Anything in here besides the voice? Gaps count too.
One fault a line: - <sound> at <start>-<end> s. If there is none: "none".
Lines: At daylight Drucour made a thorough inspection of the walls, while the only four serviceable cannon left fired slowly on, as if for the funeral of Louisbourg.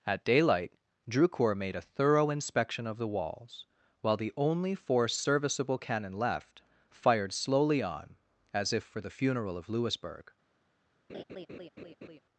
- laugh at 11.1-12.2 s